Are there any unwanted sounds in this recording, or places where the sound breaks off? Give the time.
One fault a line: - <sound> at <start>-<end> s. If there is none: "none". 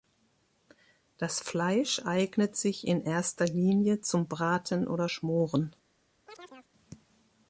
- chirp at 6.3-6.7 s